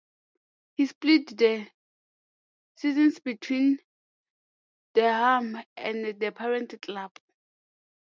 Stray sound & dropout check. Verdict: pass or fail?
pass